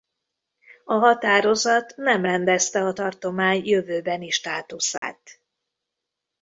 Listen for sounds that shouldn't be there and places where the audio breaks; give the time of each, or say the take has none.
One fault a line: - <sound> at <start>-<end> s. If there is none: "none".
- dropout at 5.0-5.0 s